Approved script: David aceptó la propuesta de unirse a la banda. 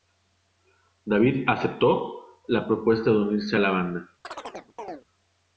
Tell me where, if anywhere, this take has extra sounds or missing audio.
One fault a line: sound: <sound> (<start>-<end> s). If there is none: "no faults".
sound: chirp (4.2-5.0 s)